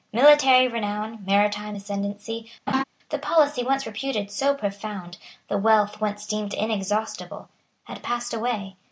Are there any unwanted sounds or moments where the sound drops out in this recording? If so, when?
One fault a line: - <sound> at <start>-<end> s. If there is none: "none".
- laugh at 2.7-2.8 s